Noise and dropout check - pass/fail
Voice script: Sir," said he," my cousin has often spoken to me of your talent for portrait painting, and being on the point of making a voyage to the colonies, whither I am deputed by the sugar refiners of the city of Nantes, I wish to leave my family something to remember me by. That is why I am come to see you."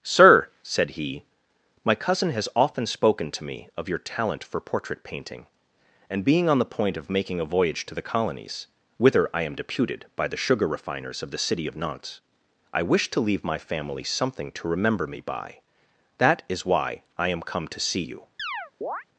fail